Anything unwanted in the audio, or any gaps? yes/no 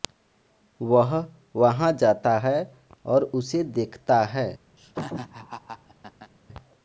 yes